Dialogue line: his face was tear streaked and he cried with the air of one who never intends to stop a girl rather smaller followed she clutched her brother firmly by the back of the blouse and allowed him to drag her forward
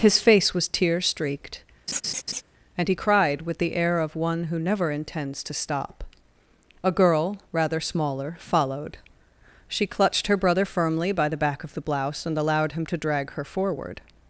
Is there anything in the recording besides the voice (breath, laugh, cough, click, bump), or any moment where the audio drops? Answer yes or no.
yes